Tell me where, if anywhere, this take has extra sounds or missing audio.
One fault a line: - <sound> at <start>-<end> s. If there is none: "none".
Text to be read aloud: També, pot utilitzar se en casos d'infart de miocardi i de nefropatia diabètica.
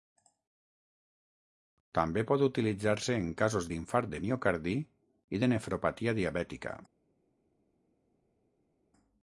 none